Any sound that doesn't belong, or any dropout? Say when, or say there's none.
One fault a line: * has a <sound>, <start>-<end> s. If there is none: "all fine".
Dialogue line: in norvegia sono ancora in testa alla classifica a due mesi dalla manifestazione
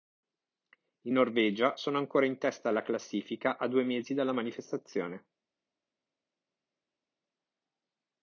all fine